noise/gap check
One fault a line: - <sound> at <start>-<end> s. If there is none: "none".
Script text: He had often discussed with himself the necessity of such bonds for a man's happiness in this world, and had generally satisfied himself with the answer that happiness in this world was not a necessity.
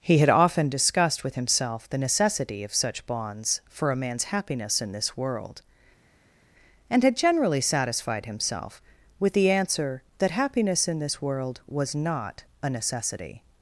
none